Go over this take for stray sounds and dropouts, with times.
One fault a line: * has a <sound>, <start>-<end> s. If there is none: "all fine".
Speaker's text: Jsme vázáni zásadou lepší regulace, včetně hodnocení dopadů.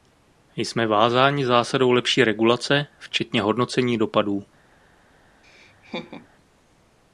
* has a laugh, 5.4-6.3 s